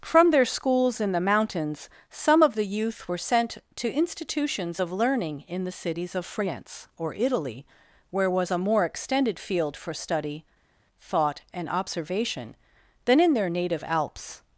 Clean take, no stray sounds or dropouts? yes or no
yes